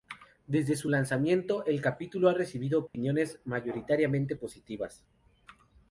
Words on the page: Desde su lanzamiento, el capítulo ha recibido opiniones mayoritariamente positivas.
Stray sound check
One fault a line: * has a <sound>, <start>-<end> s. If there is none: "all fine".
* has a dropout, 2.9-2.9 s